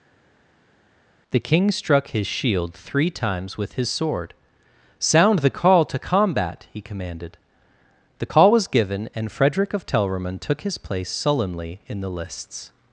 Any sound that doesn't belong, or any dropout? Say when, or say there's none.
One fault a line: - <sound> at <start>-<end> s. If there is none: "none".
none